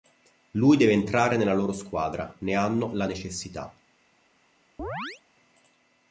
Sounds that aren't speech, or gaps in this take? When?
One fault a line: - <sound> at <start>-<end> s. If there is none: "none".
- chirp at 4.8-5.2 s